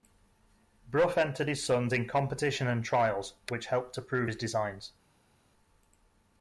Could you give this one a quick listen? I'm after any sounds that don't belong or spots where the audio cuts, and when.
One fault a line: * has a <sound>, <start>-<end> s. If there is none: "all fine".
all fine